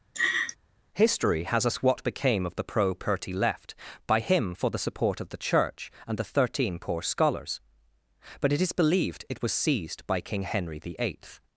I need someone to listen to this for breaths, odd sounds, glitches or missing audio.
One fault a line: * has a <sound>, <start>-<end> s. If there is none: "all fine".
* has a laugh, 0.1-0.6 s